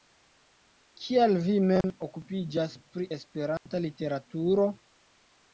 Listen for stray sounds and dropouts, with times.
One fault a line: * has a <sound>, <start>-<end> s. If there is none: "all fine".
* has a dropout, 1.8-1.8 s
* has a dropout, 3.6-3.7 s